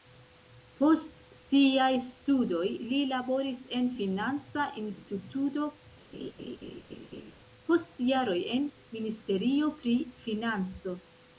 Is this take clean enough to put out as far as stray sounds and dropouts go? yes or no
no